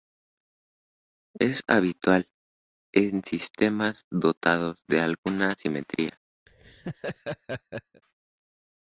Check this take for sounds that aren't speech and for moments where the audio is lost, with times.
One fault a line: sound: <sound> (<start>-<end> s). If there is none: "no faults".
sound: laugh (6.5-8.0 s)